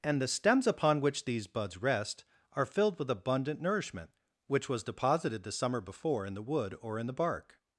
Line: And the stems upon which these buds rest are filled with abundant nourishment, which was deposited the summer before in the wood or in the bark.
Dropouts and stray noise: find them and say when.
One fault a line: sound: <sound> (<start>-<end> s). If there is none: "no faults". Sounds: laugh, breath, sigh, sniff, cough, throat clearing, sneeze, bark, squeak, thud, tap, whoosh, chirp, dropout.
no faults